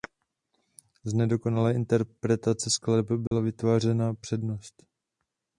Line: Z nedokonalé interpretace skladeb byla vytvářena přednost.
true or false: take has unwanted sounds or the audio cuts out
true